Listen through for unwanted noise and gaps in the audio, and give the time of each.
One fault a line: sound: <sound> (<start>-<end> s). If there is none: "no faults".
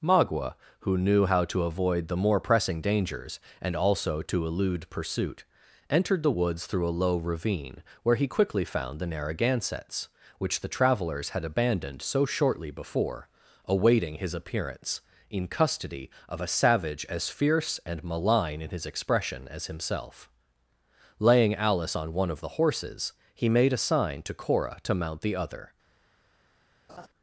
sound: laugh (26.9-27.1 s)